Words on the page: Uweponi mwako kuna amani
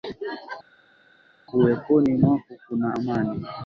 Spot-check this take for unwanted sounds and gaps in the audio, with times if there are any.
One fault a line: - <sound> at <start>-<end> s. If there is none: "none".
none